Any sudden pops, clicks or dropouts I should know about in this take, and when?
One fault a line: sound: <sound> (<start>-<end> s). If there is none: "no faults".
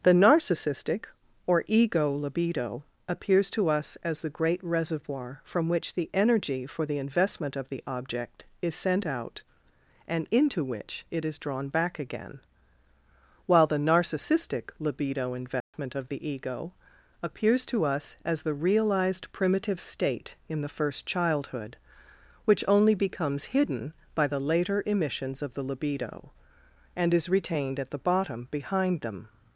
sound: dropout (15.6-15.7 s)